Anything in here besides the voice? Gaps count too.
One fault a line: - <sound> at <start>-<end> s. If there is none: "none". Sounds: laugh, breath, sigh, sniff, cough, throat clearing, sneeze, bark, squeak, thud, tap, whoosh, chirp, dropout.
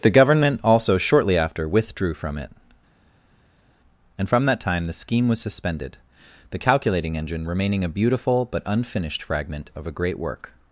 none